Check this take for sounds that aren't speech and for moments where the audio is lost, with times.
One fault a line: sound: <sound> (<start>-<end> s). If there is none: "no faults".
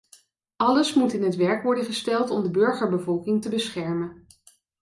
no faults